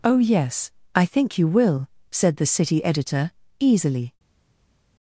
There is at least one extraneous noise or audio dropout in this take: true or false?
false